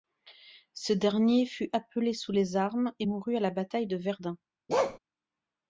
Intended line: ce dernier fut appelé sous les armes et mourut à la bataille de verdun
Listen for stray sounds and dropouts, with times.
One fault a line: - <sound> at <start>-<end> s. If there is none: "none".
- bark at 4.7-5.0 s